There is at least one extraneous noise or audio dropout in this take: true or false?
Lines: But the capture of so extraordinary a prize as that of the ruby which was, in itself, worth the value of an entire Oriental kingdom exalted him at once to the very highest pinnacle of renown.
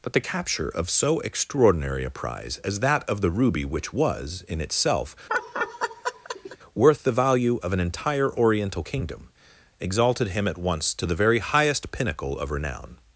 true